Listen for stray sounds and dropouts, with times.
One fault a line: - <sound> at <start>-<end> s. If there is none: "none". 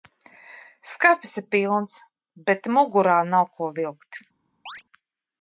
- chirp at 4.7-4.8 s